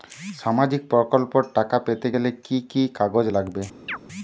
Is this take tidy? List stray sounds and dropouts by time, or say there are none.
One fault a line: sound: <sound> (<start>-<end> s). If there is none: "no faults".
sound: chirp (3.9-4.0 s)